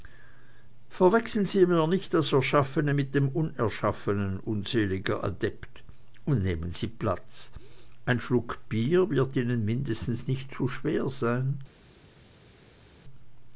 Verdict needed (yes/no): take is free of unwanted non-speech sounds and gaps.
yes